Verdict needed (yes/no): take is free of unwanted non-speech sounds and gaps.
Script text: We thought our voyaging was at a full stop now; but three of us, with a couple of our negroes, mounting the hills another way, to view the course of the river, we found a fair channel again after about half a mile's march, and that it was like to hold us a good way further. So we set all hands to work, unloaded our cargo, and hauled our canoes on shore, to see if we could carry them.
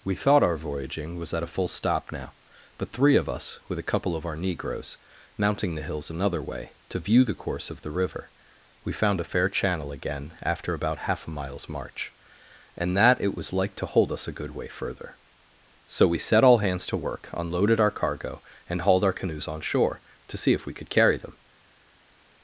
yes